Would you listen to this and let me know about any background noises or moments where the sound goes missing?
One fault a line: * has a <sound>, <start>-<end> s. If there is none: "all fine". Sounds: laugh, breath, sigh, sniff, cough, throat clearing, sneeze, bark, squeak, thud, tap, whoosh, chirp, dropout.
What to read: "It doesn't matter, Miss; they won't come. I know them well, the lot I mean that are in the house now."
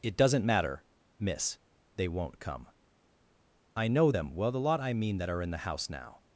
all fine